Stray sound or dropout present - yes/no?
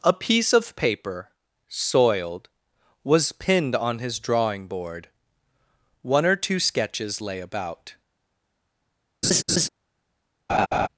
yes